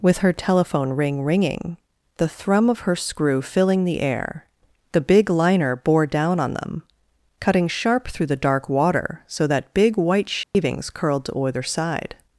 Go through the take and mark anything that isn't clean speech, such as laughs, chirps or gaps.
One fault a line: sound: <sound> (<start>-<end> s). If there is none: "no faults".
sound: dropout (10.4-10.5 s)